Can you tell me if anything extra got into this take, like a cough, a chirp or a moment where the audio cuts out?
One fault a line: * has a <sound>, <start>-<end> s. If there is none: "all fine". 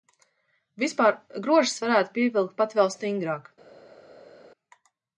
all fine